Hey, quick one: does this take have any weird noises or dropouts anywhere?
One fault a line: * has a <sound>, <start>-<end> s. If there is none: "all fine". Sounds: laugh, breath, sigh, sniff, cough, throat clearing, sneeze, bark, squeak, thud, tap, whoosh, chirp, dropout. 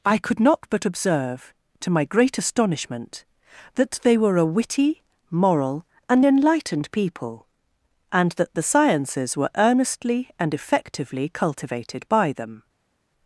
all fine